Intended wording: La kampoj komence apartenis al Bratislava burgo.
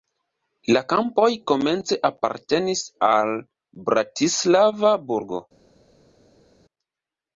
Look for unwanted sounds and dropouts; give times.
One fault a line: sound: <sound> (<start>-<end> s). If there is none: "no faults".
no faults